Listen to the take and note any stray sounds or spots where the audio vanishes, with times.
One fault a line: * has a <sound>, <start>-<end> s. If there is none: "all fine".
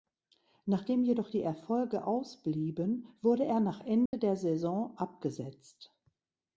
* has a dropout, 4.1-4.1 s